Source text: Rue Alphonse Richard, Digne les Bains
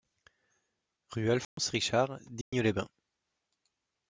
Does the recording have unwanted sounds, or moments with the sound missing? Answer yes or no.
yes